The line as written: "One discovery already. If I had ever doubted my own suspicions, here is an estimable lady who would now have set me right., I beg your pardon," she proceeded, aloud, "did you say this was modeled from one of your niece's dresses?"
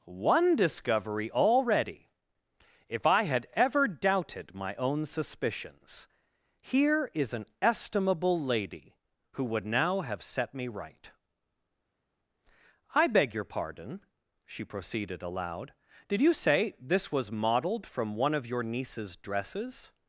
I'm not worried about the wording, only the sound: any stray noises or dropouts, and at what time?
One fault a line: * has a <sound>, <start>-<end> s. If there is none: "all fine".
all fine